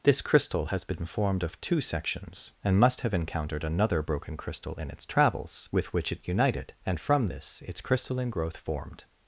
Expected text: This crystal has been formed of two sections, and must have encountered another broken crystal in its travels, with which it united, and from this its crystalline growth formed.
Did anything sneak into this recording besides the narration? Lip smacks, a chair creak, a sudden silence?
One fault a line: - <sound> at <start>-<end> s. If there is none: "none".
none